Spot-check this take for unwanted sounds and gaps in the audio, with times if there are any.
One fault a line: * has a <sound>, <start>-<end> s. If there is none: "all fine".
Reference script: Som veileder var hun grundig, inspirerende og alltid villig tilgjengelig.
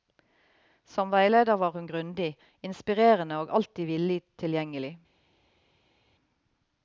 all fine